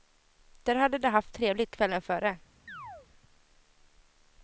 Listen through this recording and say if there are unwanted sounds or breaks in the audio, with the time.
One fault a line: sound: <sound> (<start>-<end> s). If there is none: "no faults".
sound: chirp (2.7-3.1 s)